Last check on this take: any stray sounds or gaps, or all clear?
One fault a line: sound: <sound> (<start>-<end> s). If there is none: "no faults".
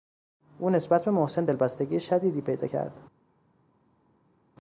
no faults